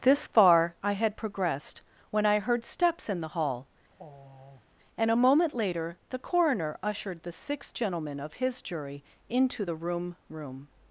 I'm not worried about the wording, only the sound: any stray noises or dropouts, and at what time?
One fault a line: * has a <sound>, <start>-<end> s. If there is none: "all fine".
* has a sigh, 3.9-4.7 s